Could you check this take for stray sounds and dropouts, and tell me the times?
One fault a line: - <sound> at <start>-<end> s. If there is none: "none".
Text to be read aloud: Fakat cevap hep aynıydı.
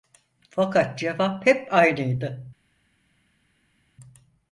none